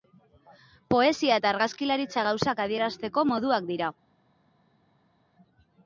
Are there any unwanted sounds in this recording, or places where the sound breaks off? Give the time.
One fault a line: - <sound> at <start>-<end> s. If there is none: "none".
none